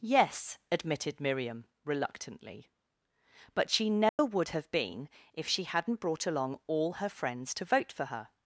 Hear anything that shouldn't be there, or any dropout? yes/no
yes